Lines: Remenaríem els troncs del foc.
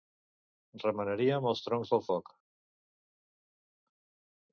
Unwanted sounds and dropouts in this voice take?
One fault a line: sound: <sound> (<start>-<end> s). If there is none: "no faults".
no faults